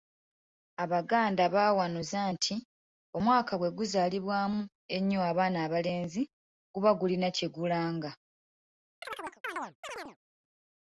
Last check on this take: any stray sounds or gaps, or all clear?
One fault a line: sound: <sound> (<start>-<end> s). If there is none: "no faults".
sound: chirp (9.0-10.2 s)